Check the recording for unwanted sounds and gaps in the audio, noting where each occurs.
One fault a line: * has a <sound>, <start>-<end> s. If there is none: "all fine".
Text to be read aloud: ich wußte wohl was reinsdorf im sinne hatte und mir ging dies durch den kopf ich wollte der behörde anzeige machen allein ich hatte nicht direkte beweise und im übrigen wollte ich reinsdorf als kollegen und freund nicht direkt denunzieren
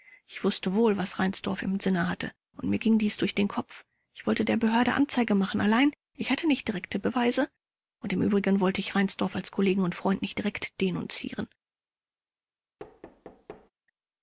* has a thud, 12.8-13.7 s